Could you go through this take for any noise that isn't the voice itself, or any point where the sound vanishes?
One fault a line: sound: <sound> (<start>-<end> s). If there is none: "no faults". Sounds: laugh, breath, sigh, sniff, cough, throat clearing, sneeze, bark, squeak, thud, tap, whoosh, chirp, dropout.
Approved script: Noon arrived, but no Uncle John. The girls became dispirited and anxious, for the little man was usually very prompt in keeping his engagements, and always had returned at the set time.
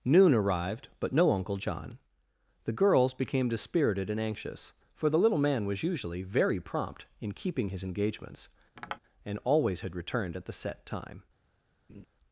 sound: tap (8.8-9.0 s)
sound: laugh (11.9-12.1 s)